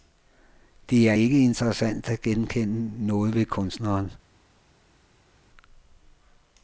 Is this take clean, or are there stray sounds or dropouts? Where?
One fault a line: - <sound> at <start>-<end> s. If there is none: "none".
none